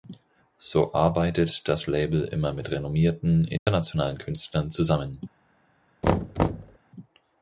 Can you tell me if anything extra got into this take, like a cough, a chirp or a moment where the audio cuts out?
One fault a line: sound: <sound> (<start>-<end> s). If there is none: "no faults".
sound: dropout (3.6-3.7 s)
sound: thud (6.0-6.8 s)